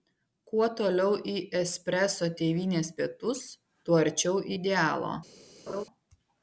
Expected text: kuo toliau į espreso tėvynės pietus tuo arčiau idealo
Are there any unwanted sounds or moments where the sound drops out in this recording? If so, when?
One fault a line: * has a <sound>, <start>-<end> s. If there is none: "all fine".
* has a laugh, 5.7-5.8 s